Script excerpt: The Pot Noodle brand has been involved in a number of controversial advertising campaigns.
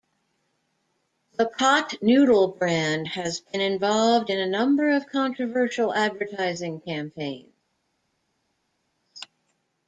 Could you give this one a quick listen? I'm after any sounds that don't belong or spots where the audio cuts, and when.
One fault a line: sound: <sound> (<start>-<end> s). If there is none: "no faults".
no faults